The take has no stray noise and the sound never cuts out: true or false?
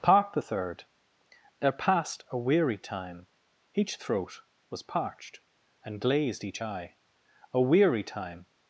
true